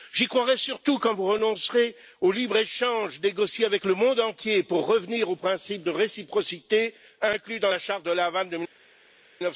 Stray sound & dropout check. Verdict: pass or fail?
pass